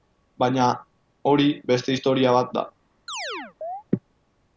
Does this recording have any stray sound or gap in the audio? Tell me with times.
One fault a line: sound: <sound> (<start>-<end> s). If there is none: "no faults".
sound: chirp (3.1-3.8 s)